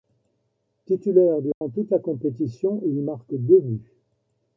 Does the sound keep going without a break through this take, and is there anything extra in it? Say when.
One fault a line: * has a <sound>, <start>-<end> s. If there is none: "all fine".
* has a dropout, 1.5-1.6 s